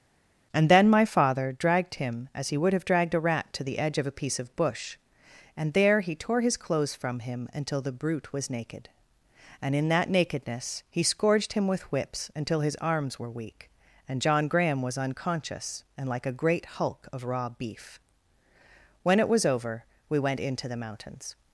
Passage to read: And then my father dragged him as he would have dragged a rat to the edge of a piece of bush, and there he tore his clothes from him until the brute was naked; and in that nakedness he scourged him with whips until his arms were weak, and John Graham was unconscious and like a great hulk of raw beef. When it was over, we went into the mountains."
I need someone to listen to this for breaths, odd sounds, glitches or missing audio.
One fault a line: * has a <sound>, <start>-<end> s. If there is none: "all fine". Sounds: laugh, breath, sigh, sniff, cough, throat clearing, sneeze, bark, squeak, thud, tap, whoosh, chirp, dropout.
all fine